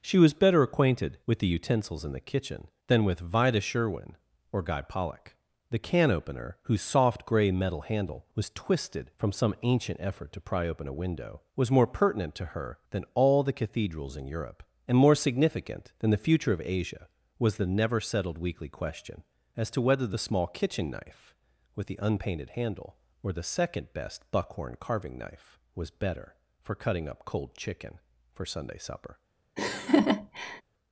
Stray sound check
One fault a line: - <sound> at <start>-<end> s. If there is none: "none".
- laugh at 29.6-30.6 s